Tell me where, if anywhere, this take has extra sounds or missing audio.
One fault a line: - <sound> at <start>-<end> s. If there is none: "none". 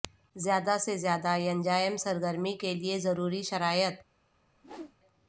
- whoosh at 4.5-5.0 s